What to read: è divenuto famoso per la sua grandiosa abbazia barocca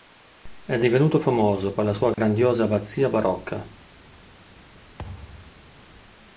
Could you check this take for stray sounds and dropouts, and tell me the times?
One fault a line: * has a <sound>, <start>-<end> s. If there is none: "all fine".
* has a dropout, 2.1-2.2 s
* has a thud, 5.0-5.8 s